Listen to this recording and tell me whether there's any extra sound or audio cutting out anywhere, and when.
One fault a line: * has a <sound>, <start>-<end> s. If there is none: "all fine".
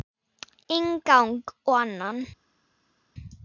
all fine